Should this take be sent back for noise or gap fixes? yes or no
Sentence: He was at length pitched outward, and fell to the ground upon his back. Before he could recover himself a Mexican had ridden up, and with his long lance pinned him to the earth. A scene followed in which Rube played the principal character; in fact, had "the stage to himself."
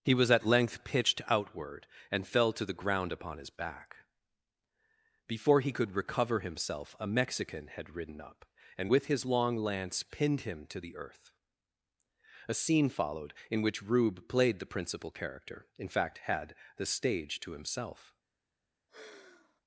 yes